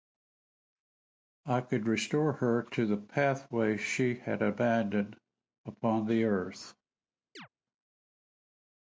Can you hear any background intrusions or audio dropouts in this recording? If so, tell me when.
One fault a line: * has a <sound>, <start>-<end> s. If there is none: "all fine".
* has a chirp, 7.4-7.5 s